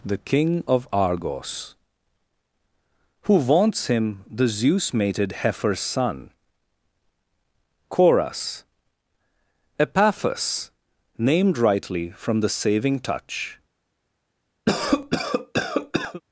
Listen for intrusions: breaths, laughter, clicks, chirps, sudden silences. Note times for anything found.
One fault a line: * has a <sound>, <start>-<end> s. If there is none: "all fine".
* has a cough, 14.7-16.2 s